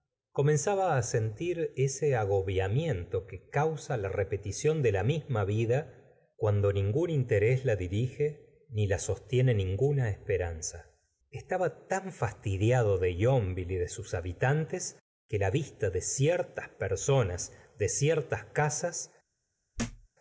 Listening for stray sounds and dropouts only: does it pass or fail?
fail